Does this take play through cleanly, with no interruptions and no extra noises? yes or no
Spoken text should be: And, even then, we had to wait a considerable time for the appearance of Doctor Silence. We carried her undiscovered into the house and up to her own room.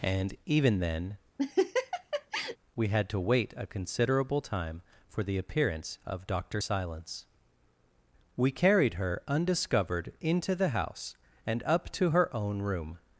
no